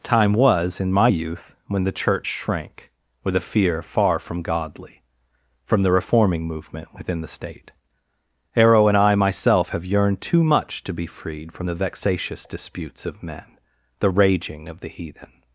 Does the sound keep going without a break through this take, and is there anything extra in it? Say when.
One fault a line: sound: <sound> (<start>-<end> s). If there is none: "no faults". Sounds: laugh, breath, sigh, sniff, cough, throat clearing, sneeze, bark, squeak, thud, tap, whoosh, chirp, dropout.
no faults